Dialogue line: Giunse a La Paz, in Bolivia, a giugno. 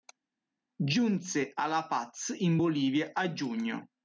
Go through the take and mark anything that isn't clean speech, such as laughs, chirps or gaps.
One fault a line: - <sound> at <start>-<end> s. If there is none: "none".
none